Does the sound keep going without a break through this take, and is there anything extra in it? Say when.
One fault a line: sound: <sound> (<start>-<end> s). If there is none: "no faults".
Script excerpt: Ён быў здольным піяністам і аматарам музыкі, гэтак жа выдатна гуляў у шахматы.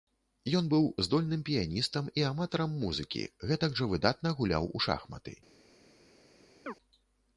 sound: chirp (6.7-6.7 s)